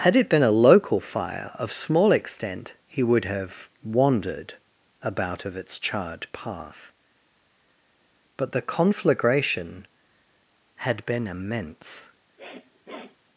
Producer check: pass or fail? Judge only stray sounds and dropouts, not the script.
fail